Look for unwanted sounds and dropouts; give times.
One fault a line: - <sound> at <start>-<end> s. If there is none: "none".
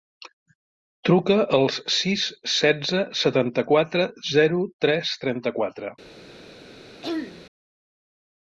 - throat clearing at 7.0-7.5 s